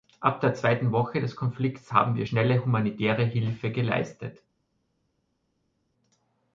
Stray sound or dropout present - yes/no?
no